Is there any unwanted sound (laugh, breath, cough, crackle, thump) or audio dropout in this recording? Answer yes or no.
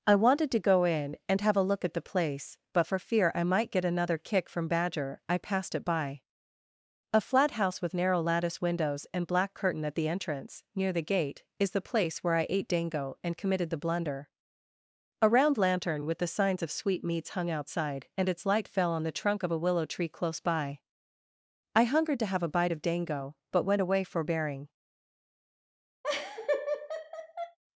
yes